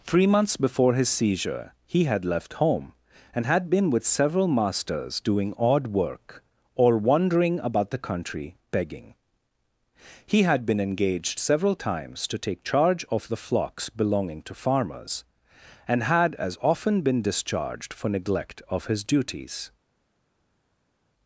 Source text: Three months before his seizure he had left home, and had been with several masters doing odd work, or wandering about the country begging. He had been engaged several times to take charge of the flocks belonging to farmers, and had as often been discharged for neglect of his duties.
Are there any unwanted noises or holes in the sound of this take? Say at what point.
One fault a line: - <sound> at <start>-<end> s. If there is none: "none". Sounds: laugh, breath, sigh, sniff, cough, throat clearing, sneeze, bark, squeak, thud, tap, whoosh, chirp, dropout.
none